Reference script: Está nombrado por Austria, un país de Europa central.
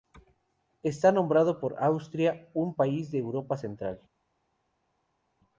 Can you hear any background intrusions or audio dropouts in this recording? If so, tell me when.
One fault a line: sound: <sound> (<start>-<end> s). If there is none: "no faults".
no faults